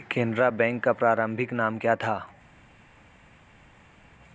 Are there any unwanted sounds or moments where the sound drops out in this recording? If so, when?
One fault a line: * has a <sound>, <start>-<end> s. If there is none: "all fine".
all fine